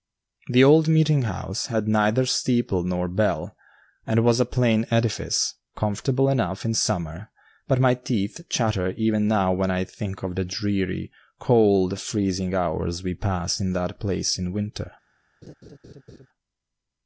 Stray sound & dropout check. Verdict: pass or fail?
fail